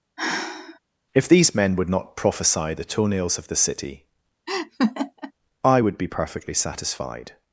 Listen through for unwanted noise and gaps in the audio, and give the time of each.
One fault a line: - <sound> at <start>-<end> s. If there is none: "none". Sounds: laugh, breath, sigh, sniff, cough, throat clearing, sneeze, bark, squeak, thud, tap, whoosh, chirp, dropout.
- sigh at 0.2-0.8 s
- laugh at 4.5-5.3 s